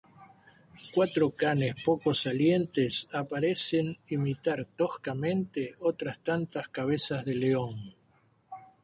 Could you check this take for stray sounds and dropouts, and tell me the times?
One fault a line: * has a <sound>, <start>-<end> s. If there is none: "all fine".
all fine